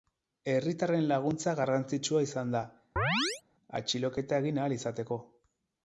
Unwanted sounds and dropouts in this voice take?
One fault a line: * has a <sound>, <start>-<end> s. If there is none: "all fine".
* has a chirp, 3.0-3.4 s